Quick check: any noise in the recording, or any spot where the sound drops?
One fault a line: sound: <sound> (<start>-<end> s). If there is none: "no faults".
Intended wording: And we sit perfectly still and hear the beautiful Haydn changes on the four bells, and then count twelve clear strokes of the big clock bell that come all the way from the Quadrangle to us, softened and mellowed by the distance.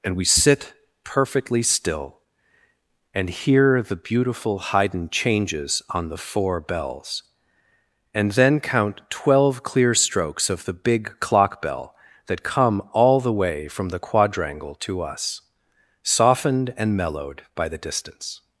no faults